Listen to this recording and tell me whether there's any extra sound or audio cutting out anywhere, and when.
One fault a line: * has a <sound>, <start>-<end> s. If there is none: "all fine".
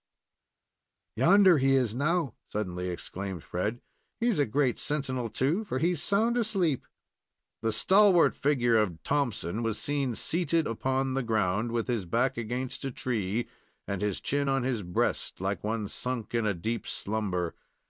all fine